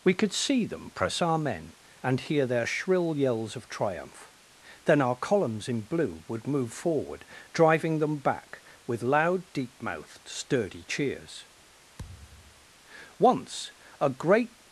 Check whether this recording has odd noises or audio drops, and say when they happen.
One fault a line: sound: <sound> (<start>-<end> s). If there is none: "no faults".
sound: thud (12.0-12.7 s)